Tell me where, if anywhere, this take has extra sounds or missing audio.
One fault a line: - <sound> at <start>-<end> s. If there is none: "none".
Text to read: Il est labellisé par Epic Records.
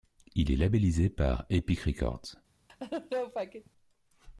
- laugh at 2.7-3.7 s